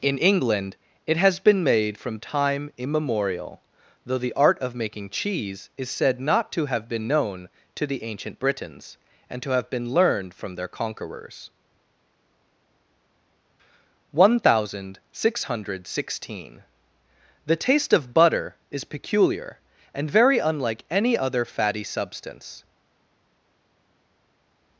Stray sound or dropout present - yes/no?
no